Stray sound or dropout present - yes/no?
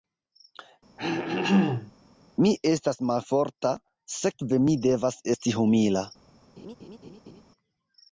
yes